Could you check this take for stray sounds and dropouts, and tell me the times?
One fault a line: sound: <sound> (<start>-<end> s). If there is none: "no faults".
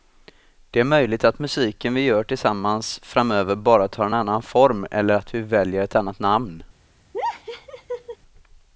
sound: laugh (7.1-8.2 s)